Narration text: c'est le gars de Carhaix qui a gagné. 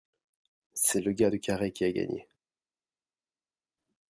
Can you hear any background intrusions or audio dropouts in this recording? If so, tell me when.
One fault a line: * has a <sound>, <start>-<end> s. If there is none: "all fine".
all fine